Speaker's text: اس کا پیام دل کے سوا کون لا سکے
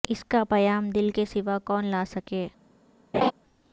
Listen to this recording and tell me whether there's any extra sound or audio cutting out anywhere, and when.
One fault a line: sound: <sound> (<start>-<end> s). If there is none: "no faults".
sound: laugh (3.1-3.3 s)